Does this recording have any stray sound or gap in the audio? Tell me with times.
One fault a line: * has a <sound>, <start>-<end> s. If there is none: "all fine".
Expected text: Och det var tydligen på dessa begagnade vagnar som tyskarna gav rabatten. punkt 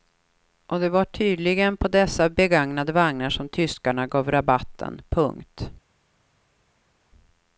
all fine